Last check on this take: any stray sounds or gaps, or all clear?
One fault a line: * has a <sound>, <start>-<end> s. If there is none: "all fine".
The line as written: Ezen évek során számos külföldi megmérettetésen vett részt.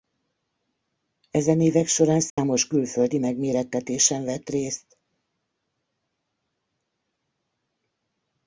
* has a dropout, 2.3-2.4 s